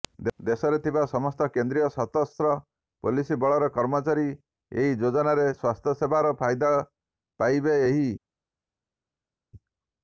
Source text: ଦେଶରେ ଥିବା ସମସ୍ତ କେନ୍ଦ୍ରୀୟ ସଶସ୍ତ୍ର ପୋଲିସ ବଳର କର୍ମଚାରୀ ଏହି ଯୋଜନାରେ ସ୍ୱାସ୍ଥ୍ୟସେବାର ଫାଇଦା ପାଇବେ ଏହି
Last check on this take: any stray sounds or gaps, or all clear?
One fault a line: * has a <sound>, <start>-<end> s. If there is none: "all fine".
all fine